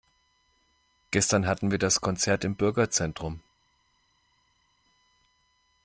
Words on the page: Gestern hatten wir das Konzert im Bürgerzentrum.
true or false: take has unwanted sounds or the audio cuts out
false